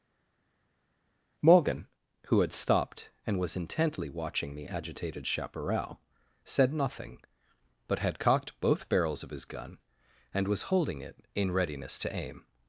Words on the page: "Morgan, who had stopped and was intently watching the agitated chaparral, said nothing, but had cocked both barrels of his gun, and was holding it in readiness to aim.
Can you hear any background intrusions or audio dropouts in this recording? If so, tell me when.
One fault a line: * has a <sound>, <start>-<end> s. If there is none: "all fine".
all fine